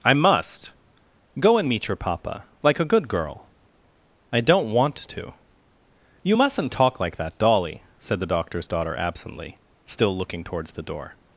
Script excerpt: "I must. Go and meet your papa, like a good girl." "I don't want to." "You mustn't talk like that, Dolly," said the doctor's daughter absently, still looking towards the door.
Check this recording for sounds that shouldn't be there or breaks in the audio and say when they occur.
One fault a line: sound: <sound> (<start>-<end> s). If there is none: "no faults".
no faults